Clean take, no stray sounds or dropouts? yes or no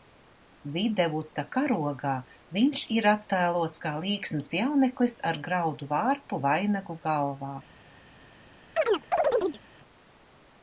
no